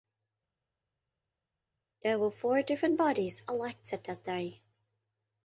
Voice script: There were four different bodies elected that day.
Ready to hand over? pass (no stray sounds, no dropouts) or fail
pass